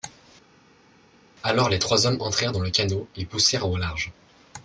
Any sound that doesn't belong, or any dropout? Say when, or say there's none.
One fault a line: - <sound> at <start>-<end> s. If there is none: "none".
none